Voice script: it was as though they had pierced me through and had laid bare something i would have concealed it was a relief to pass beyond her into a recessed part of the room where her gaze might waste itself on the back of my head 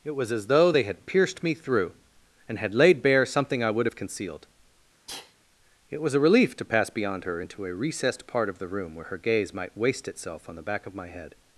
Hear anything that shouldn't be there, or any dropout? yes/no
yes